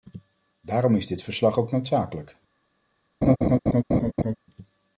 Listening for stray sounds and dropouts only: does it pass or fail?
fail